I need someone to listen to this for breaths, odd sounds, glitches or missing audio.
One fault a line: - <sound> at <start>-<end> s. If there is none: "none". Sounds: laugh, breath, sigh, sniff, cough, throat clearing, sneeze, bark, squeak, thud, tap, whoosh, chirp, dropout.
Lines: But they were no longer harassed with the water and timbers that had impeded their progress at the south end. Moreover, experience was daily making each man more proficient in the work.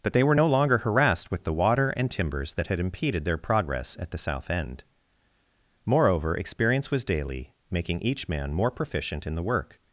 none